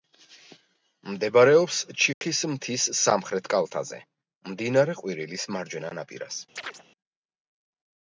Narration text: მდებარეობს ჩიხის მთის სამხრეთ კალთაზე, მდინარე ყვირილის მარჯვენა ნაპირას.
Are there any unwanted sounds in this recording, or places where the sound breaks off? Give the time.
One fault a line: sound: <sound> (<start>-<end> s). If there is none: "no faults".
sound: dropout (2.1-2.2 s)
sound: chirp (6.6-6.8 s)